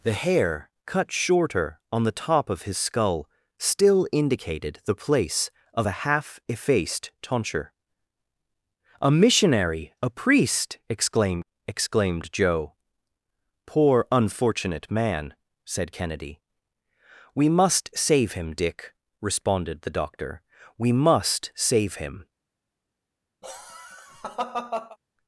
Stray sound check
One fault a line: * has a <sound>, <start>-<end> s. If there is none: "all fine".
* has a laugh, 23.4-25.0 s